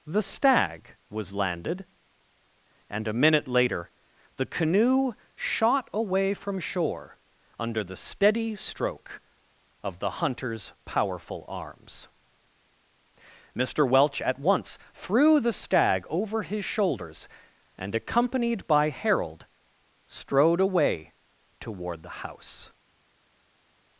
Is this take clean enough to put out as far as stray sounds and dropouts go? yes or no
yes